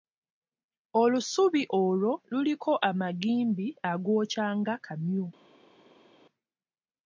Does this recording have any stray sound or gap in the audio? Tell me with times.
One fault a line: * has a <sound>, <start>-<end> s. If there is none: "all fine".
all fine